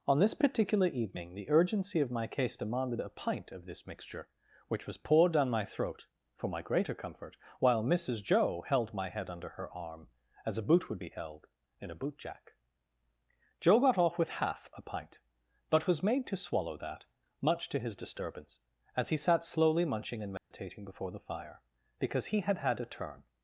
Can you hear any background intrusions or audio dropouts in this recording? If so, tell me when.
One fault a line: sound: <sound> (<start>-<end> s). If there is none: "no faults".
sound: dropout (20.4-20.5 s)